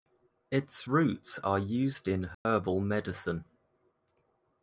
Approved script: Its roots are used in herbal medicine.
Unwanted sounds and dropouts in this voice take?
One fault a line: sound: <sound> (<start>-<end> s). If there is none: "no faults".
sound: dropout (2.3-2.5 s)